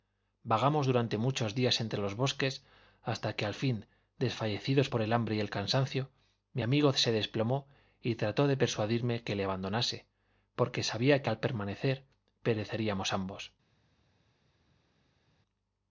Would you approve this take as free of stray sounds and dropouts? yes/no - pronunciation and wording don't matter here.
yes